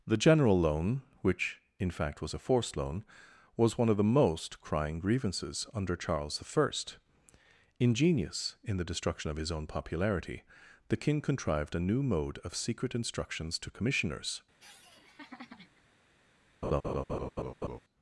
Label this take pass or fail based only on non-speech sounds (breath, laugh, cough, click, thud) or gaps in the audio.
fail